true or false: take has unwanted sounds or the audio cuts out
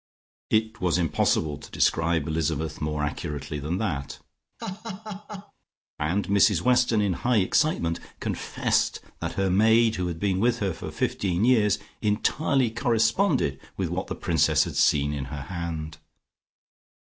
true